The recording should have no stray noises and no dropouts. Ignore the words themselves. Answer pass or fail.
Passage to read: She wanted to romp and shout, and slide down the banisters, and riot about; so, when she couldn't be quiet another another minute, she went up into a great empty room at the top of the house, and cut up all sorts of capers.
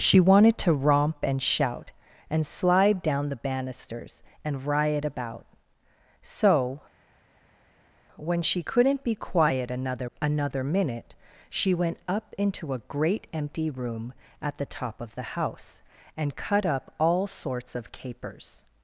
pass